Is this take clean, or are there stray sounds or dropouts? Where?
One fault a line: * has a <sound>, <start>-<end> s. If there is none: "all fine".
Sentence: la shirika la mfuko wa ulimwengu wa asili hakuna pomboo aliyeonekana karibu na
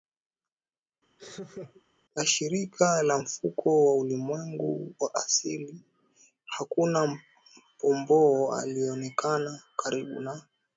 * has a laugh, 1.2-1.8 s